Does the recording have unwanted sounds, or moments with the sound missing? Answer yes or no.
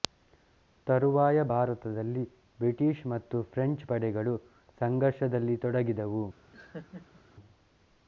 yes